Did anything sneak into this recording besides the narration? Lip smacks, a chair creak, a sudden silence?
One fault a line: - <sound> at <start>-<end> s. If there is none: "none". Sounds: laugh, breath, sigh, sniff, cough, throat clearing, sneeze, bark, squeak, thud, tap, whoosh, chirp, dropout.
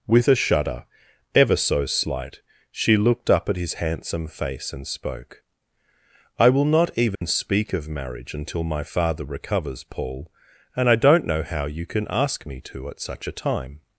- dropout at 7.1-7.2 s